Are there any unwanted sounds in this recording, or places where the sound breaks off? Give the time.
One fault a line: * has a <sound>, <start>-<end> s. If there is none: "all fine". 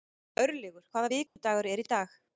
* has a dropout, 1.3-1.4 s